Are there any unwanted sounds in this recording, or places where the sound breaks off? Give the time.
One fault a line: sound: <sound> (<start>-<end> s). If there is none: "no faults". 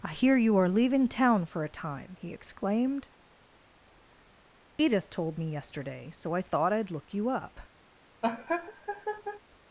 sound: laugh (8.2-9.4 s)